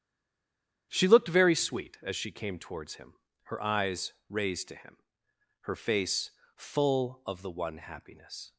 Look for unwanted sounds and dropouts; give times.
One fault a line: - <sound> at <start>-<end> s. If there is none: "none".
none